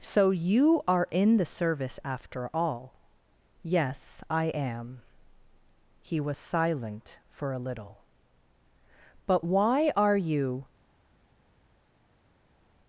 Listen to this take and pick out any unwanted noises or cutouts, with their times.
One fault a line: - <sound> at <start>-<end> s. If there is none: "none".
none